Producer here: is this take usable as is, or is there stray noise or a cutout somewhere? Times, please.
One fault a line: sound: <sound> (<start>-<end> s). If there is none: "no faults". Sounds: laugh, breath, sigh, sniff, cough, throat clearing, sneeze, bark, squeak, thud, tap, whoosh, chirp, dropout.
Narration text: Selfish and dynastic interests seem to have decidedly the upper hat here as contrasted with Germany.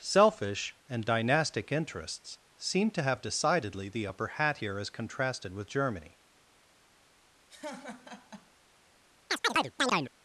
sound: laugh (7.5-8.5 s)
sound: chirp (9.3-10.1 s)